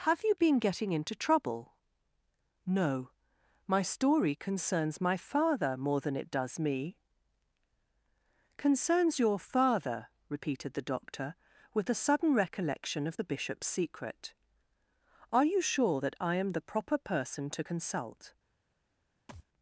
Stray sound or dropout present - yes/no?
yes